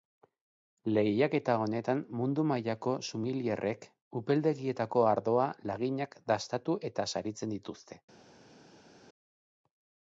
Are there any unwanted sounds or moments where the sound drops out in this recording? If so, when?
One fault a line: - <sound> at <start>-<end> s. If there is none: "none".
none